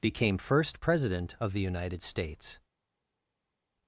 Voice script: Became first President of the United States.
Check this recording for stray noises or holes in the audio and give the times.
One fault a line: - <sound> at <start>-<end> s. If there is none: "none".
none